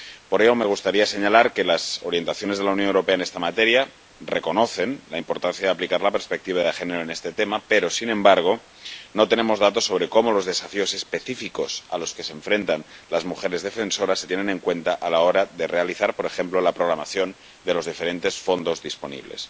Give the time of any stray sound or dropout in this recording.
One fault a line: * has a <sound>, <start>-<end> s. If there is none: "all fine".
all fine